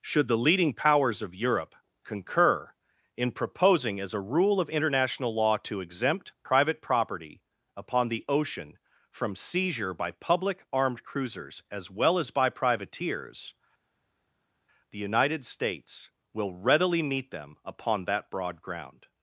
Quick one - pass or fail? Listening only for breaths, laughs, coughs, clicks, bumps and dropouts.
pass